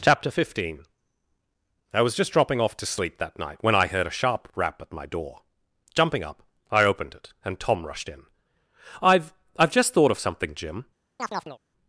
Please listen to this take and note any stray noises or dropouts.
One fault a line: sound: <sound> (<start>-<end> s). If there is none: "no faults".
sound: chirp (11.2-11.6 s)